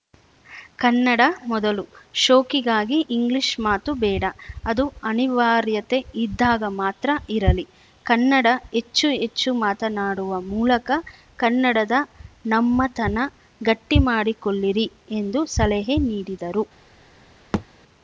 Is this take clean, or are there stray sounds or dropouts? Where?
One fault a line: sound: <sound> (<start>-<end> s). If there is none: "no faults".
sound: thud (17.5-17.7 s)